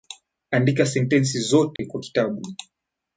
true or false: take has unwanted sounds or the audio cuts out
true